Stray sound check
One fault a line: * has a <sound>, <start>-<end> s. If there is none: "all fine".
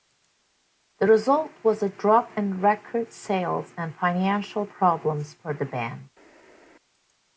all fine